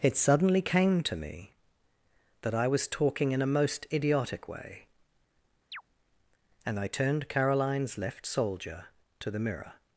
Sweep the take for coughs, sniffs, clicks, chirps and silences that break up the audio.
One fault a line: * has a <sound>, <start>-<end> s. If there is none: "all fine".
* has a chirp, 5.7-5.8 s